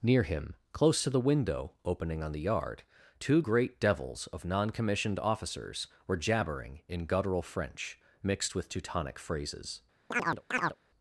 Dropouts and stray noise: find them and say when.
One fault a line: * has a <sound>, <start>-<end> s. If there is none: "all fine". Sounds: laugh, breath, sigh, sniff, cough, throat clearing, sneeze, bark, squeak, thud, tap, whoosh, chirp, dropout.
* has a chirp, 10.1-10.8 s